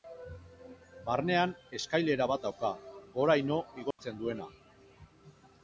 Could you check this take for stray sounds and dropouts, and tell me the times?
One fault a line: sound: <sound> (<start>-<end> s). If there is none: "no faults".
sound: dropout (3.9-4.0 s)